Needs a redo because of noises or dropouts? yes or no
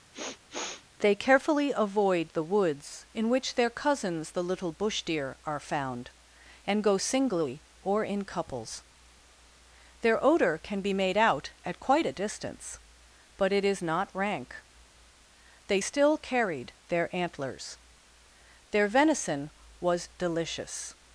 yes